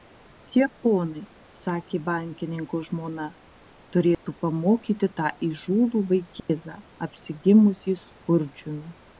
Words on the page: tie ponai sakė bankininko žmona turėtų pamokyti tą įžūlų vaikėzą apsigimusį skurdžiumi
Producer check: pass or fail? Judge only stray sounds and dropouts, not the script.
fail